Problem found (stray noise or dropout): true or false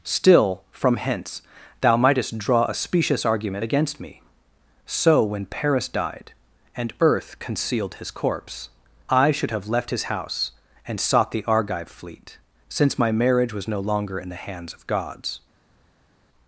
false